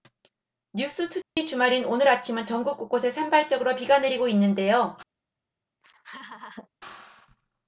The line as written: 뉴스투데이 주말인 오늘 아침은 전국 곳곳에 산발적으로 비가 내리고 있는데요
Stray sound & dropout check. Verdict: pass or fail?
fail